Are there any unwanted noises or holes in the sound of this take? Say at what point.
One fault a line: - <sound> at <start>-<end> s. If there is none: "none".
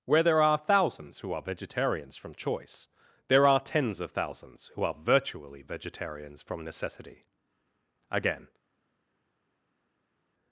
none